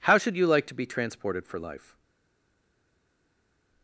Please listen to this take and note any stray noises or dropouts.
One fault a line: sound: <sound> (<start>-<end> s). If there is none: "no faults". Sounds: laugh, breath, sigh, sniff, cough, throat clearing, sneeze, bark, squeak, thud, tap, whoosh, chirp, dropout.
no faults